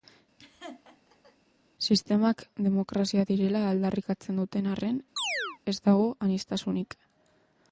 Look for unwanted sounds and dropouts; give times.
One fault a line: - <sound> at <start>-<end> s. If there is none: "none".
- laugh at 0.4-1.4 s
- chirp at 5.2-5.6 s